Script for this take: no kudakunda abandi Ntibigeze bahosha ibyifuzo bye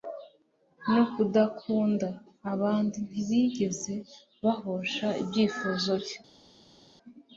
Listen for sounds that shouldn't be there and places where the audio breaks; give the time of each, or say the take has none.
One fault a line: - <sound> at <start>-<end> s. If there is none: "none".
none